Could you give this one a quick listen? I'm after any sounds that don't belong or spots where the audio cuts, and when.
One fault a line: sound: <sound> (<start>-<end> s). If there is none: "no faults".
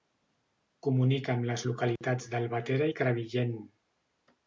sound: dropout (2.0-2.0 s)